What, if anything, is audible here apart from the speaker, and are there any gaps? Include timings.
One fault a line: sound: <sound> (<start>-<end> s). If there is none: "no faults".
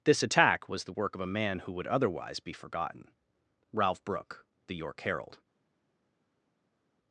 no faults